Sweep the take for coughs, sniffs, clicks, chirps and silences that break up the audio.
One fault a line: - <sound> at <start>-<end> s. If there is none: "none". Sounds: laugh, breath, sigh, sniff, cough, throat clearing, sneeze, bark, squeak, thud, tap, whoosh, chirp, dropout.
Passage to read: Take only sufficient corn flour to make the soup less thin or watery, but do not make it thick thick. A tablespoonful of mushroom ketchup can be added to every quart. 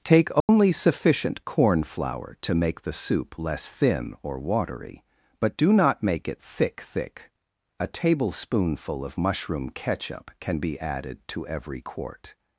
- dropout at 0.4-0.5 s